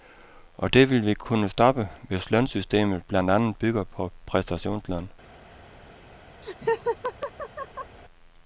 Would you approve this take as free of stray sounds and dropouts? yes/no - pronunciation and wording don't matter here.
no